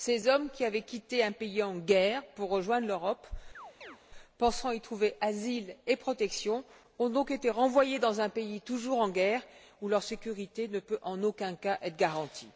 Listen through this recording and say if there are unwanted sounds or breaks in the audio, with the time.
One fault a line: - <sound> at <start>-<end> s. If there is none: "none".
- chirp at 3.5-4.0 s